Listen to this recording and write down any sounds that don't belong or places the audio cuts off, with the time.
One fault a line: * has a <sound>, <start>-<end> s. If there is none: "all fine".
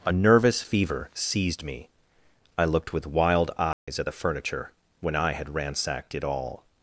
* has a dropout, 3.7-3.9 s